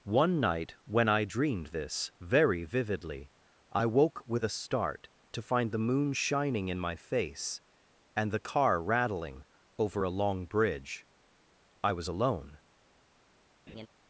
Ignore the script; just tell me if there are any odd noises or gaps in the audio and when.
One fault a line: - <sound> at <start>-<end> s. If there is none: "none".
- laugh at 13.7-13.9 s